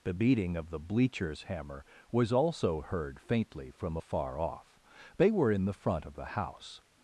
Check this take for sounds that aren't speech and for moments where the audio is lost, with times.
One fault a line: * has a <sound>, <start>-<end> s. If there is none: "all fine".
all fine